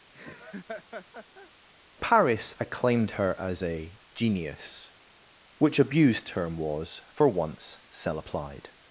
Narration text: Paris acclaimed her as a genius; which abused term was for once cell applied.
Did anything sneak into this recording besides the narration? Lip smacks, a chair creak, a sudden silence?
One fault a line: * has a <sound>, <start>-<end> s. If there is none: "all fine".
* has a laugh, 0.1-1.5 s